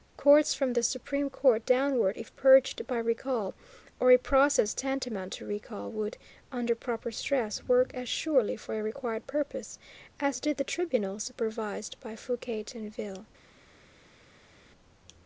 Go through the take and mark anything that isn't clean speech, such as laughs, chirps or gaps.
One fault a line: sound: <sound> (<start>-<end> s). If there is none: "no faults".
no faults